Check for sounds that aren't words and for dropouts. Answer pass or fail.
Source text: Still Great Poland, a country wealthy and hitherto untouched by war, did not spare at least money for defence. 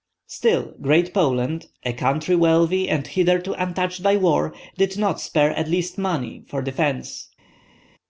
pass